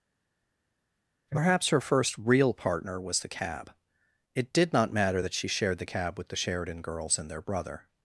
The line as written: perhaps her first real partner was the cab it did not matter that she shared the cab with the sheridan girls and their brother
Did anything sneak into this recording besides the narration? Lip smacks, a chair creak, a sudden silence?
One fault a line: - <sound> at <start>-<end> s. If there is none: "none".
none